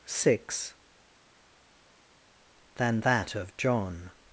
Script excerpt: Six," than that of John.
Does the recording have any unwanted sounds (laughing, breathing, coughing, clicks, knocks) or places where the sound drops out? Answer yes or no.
no